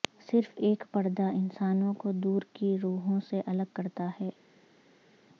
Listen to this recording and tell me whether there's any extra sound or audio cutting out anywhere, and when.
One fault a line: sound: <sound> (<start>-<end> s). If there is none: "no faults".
no faults